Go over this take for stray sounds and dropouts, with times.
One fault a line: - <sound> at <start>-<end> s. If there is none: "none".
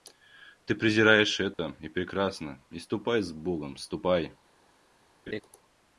- dropout at 1.5-1.6 s
- laugh at 5.3-5.4 s